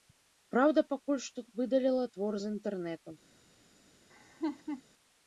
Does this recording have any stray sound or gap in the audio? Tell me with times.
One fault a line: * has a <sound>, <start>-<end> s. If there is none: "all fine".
* has a laugh, 4.1-4.8 s